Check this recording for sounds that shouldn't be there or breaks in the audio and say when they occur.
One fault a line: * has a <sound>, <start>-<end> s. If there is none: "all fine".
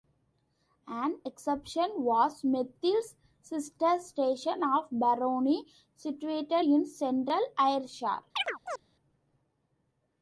* has a chirp, 8.4-8.8 s